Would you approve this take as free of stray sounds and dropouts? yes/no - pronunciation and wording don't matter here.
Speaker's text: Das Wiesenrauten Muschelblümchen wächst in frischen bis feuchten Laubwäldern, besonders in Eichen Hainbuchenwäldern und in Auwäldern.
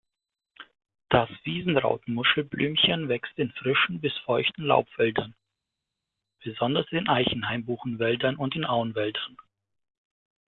yes